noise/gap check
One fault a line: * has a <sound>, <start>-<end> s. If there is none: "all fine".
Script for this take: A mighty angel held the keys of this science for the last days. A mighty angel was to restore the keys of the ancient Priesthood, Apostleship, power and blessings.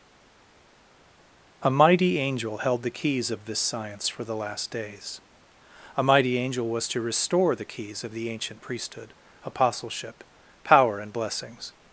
all fine